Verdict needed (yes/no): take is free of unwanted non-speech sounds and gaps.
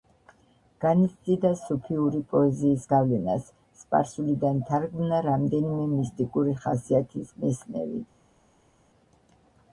yes